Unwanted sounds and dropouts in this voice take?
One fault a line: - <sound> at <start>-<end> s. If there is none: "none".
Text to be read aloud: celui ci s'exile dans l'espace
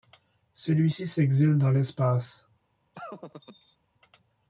- laugh at 2.9-3.8 s